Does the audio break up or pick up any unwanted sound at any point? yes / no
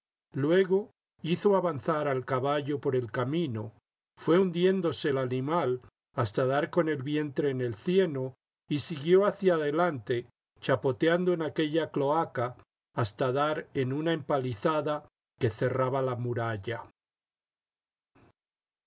no